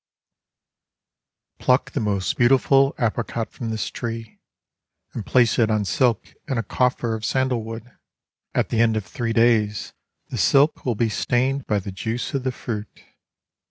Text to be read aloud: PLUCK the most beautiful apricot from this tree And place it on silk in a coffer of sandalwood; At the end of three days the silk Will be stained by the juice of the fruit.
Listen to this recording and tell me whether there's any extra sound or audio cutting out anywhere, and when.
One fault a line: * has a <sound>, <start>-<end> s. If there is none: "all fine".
all fine